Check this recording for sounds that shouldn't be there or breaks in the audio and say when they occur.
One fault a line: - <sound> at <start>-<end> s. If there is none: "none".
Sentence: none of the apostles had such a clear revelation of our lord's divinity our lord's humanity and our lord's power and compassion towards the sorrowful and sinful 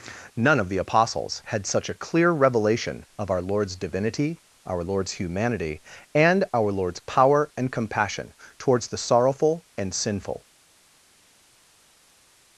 none